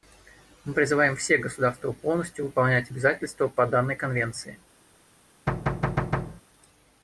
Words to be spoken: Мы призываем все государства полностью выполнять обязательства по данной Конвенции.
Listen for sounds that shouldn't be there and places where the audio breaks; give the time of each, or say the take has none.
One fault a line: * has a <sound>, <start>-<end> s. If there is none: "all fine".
* has a thud, 5.5-6.4 s